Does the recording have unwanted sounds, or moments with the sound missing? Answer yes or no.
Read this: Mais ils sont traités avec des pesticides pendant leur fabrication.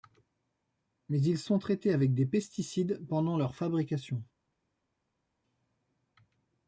no